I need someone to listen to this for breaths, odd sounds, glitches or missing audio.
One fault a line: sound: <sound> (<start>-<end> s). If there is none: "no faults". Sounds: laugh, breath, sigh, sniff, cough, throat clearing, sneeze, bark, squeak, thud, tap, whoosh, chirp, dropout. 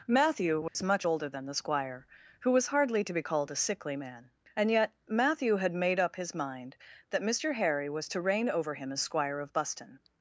sound: dropout (0.7-0.8 s)